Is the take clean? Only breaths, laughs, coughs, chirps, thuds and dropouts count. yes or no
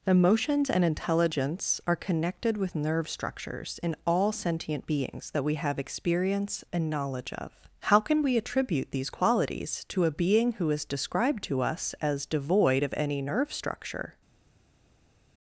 yes